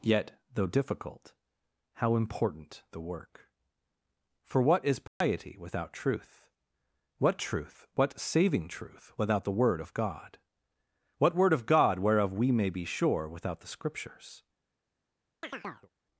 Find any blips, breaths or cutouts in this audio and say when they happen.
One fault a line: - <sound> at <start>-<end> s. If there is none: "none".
- dropout at 5.1-5.2 s
- chirp at 15.4-15.9 s